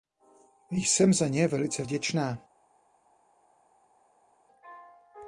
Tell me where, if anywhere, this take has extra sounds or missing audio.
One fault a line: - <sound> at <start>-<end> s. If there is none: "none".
none